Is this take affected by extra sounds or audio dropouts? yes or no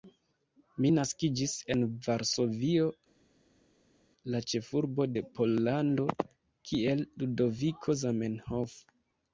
no